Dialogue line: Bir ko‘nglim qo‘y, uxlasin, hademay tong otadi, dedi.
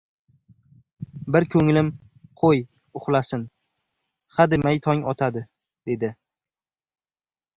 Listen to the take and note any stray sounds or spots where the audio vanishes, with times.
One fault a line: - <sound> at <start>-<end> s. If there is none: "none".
none